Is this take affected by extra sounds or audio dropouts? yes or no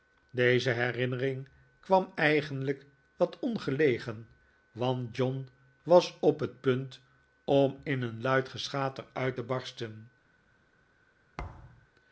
yes